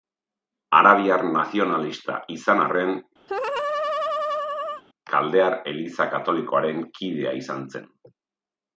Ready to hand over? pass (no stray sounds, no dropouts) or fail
fail